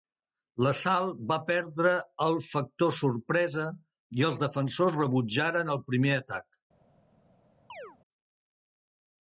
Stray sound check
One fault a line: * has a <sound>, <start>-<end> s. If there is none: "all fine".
* has a chirp, 7.7-8.0 s